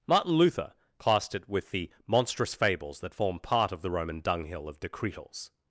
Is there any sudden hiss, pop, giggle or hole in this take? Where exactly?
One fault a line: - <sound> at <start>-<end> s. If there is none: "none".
none